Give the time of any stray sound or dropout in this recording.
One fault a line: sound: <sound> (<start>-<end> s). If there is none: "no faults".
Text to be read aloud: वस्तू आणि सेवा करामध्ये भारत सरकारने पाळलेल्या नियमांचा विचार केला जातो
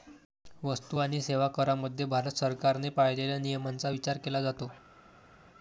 no faults